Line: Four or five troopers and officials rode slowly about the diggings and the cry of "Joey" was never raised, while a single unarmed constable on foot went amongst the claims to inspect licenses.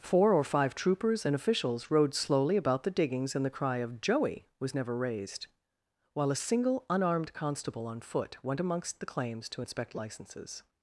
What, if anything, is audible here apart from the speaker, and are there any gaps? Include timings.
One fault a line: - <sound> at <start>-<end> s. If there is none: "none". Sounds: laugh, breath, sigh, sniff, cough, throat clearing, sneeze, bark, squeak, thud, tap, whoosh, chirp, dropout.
none